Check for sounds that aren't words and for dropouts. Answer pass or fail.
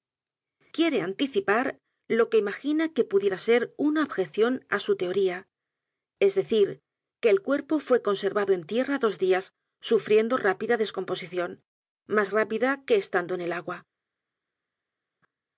pass